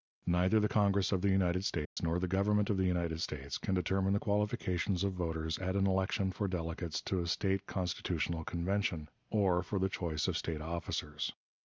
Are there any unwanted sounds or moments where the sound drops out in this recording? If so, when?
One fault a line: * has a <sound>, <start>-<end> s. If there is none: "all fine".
* has a dropout, 1.8-2.0 s